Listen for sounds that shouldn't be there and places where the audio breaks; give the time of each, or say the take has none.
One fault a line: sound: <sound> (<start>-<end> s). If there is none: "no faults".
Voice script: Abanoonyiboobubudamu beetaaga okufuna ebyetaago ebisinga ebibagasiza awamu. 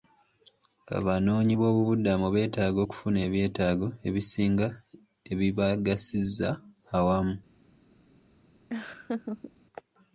sound: laugh (8.7-9.5 s)